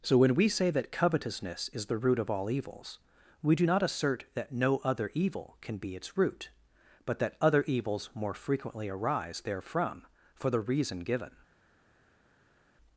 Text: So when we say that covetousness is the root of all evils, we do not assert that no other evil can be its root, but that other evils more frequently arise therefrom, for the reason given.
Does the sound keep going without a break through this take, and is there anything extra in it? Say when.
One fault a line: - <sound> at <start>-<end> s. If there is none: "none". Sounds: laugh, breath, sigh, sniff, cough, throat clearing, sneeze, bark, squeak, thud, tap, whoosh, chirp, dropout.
none